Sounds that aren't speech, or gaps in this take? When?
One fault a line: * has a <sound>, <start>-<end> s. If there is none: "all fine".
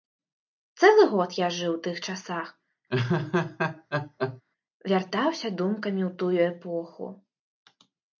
* has a laugh, 2.9-4.4 s